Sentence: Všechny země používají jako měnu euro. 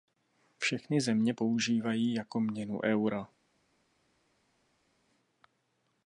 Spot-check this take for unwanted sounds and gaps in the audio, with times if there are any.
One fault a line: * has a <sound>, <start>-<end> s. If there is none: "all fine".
all fine